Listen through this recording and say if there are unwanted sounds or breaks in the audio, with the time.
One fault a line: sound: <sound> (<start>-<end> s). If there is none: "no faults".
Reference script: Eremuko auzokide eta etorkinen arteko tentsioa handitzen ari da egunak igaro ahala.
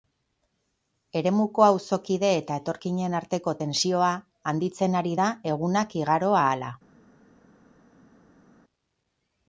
no faults